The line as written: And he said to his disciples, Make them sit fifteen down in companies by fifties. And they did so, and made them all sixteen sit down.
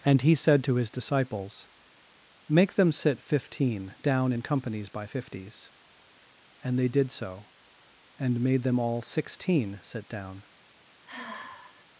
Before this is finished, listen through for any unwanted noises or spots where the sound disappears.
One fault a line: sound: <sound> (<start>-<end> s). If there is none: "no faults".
sound: sigh (11.1-11.9 s)